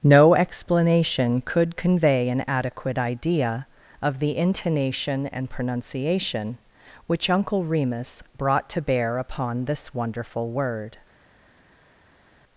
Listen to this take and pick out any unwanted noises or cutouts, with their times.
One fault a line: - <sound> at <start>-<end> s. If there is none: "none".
none